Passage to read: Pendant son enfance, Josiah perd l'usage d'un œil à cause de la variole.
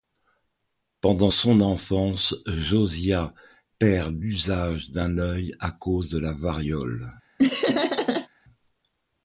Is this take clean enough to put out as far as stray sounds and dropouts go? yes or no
no